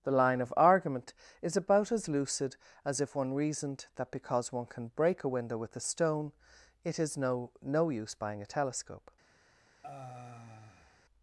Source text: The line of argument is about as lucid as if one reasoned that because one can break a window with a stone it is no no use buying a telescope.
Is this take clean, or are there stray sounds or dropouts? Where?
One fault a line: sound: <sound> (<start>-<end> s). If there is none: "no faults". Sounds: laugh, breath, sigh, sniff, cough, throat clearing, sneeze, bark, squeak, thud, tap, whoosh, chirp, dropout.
sound: sigh (9.8-11.0 s)